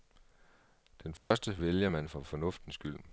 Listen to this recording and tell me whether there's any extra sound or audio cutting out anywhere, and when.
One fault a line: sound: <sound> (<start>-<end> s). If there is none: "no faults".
sound: dropout (1.2-1.3 s)